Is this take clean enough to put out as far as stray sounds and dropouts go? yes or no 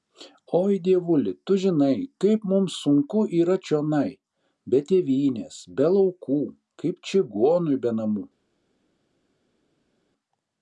yes